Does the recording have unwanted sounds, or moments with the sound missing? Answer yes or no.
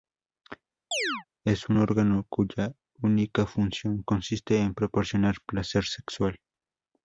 yes